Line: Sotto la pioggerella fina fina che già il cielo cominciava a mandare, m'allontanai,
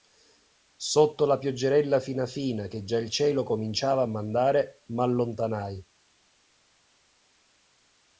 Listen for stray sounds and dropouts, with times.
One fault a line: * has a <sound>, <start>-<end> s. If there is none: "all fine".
all fine